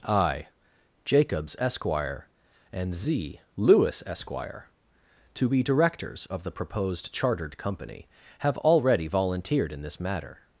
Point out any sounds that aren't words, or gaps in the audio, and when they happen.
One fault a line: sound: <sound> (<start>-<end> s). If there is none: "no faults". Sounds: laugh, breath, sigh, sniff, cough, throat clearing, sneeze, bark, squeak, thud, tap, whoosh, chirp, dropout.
no faults